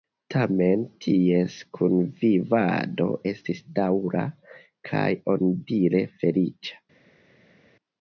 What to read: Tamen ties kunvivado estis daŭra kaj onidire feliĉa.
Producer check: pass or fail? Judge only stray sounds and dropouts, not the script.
pass